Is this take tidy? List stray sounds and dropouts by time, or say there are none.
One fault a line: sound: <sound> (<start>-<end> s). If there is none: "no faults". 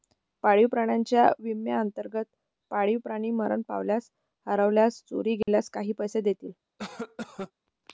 sound: dropout (5.4-5.5 s)
sound: cough (6.8-7.5 s)